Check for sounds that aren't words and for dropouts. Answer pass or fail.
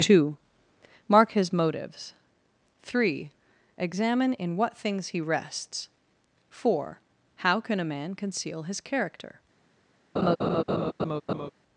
fail